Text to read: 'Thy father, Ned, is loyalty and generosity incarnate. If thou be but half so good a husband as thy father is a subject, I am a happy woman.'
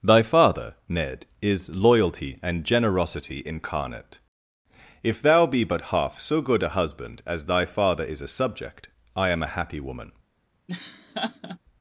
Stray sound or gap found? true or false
true